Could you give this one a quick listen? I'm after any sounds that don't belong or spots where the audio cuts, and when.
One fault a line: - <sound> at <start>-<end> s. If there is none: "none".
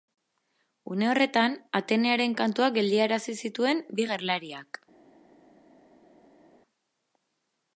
none